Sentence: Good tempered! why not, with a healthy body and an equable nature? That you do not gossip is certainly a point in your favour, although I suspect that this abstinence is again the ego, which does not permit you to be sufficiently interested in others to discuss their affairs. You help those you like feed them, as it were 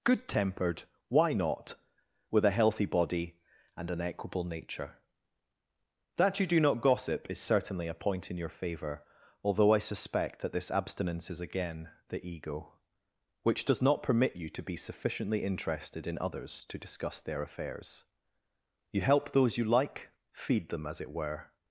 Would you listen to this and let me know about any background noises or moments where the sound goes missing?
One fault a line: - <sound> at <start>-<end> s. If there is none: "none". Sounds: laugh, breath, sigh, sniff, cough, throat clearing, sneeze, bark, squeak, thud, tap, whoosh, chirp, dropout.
none